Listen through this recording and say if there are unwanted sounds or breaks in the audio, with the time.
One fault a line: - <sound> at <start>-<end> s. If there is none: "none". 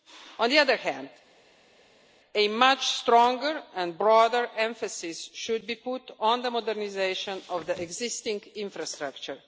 none